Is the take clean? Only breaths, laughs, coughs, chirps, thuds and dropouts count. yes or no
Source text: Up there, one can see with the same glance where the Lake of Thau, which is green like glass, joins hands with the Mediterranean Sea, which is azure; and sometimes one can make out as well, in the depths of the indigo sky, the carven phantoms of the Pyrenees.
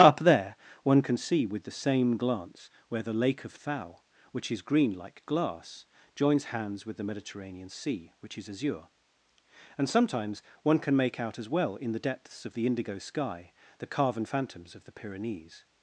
yes